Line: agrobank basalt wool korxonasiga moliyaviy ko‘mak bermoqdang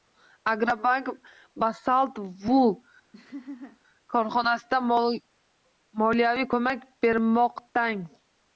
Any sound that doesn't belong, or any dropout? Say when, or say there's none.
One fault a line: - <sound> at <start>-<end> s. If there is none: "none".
- laugh at 3.1-3.8 s